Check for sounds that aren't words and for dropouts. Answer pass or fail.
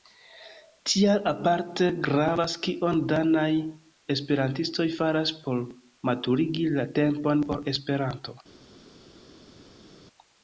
pass